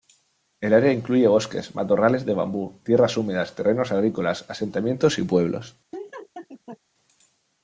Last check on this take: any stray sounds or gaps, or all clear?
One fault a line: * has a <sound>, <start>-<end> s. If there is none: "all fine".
* has a laugh, 5.9-6.8 s